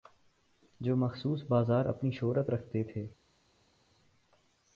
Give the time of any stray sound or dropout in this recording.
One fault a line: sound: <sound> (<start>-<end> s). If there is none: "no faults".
no faults